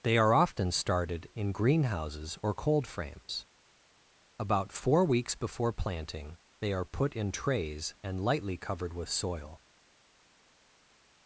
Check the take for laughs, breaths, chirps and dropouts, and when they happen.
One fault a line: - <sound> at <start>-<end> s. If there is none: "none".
none